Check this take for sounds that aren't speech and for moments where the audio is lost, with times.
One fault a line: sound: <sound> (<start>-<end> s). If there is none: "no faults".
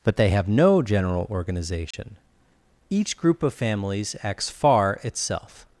sound: dropout (1.9-1.9 s)